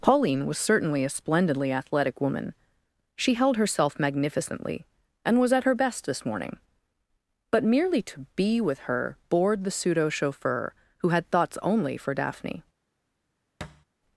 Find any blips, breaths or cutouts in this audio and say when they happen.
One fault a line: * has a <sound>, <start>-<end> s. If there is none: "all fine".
* has a thud, 13.6-13.9 s